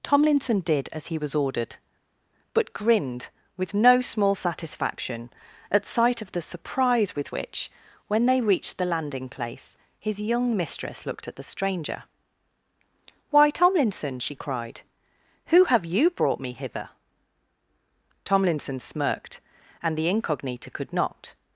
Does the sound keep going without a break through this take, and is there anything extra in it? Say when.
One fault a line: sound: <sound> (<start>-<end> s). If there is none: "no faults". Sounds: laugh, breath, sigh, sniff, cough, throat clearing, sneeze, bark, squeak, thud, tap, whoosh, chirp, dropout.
no faults